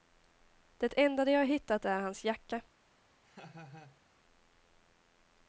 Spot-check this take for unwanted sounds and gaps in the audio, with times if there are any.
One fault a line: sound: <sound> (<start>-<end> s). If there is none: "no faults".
sound: laugh (3.2-4.0 s)